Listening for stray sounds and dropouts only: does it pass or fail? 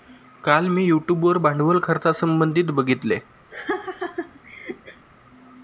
fail